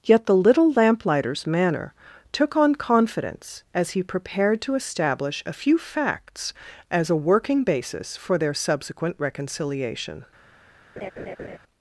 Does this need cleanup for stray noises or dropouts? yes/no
yes